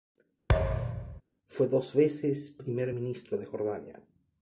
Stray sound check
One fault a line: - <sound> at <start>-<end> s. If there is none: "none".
- thud at 0.5-1.2 s